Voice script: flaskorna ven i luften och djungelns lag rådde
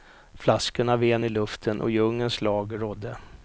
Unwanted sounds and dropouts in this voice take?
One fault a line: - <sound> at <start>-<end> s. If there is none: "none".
none